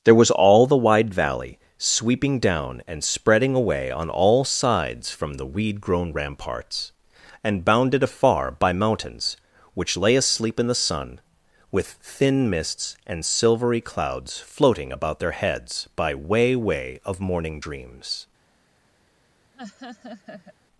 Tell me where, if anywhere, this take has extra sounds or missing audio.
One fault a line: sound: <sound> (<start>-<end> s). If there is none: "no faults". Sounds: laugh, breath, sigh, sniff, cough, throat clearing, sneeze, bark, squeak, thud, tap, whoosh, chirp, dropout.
sound: laugh (19.5-20.6 s)